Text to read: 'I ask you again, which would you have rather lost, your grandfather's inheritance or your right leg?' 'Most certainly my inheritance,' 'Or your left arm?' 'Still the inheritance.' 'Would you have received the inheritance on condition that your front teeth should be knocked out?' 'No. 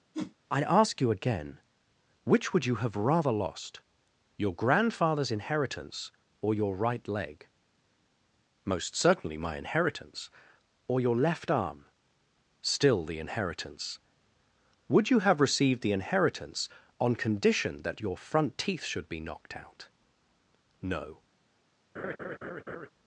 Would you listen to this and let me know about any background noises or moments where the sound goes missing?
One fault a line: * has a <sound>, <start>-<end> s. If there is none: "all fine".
* has a whoosh, 0.1-0.4 s
* has a laugh, 21.9-22.9 s